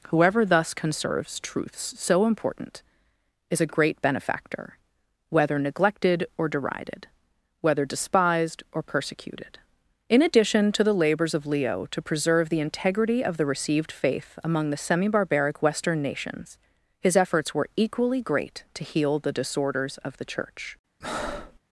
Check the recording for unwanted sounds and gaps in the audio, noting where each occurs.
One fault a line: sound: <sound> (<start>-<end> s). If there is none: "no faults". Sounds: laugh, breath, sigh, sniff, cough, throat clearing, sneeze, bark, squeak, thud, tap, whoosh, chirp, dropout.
sound: breath (21.0-21.6 s)